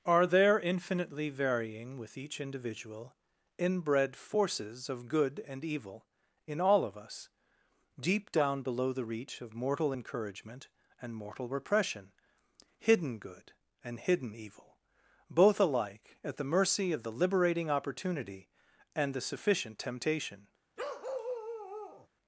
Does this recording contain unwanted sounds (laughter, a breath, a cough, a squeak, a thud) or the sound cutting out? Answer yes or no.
yes